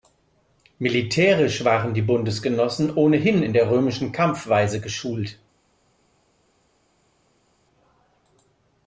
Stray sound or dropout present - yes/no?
no